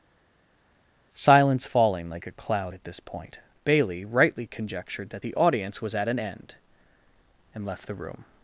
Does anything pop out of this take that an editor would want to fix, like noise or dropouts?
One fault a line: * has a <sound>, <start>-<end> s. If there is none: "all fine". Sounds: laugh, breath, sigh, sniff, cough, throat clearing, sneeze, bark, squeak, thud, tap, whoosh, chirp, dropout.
all fine